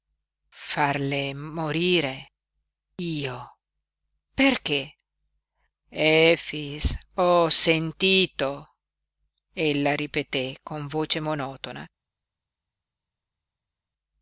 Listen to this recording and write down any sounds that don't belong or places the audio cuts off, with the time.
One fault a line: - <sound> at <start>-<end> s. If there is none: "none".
none